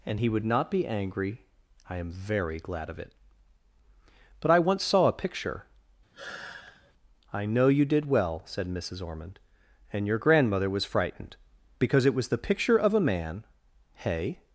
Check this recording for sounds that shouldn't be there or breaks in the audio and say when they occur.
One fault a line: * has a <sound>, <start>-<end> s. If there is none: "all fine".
* has a sigh, 6.1-6.9 s